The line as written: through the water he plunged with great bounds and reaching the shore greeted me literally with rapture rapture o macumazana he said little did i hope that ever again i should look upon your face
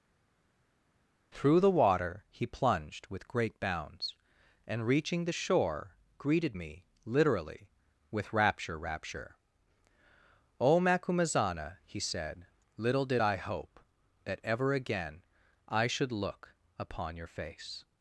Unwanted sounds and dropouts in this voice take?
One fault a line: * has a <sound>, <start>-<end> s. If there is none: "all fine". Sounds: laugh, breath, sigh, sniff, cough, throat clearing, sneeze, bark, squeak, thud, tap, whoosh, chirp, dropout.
all fine